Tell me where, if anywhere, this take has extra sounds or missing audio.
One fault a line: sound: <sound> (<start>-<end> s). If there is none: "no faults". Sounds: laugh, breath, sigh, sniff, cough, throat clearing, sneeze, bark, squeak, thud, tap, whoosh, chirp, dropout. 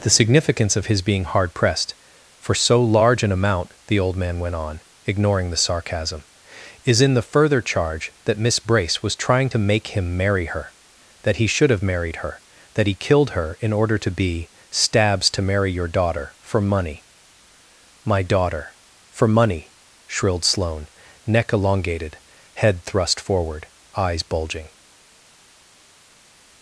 no faults